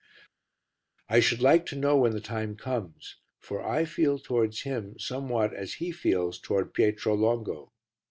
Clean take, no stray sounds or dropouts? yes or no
yes